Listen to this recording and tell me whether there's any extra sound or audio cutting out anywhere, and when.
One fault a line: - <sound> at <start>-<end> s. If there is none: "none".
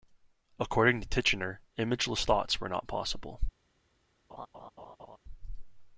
- laugh at 4.3-5.2 s